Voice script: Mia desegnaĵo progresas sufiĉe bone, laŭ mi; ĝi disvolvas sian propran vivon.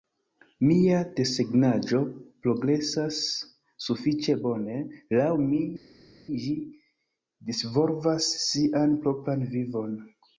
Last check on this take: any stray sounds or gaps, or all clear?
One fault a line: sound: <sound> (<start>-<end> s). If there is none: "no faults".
no faults